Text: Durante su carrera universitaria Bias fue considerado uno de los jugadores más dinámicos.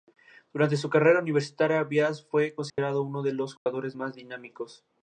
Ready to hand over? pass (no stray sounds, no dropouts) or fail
fail